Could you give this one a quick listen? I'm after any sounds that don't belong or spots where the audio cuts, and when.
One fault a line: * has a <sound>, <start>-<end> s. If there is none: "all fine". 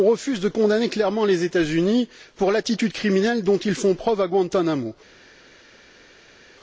all fine